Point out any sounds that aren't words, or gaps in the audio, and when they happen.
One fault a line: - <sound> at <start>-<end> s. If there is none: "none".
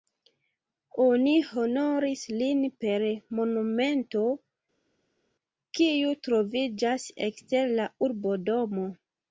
none